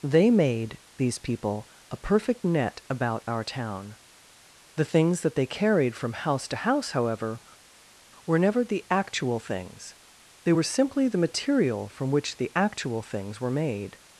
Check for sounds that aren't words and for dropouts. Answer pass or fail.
pass